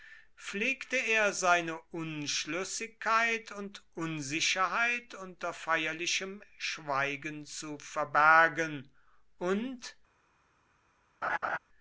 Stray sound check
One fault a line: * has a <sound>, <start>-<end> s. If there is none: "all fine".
* has a laugh, 11.2-11.6 s